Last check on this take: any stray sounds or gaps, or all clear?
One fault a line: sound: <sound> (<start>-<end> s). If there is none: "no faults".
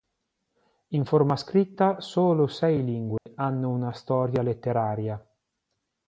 sound: dropout (3.2-3.3 s)